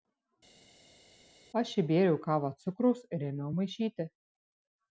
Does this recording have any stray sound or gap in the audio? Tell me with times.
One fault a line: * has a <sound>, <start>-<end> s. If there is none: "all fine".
all fine